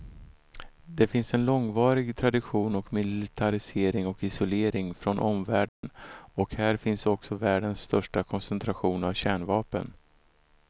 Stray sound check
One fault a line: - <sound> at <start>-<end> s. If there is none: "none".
- dropout at 5.7-5.8 s